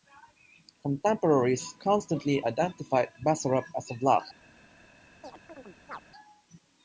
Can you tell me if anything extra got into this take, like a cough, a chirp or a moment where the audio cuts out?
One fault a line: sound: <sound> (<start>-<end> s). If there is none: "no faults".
sound: chirp (5.2-6.0 s)